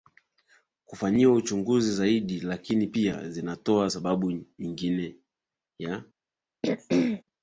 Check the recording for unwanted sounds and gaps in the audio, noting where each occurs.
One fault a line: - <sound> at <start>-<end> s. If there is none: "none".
- throat clearing at 6.6-7.2 s